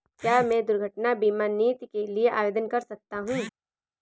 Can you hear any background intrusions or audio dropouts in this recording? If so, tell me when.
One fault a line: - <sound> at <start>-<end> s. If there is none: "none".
none